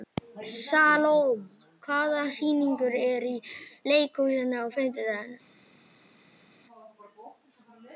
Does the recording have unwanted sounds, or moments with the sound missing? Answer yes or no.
no